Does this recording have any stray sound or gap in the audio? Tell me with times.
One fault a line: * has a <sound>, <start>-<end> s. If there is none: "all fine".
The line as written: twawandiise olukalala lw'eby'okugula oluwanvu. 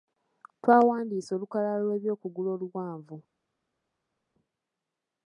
all fine